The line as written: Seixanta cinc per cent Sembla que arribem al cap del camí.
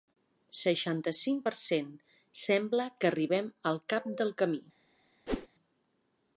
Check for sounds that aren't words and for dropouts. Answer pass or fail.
fail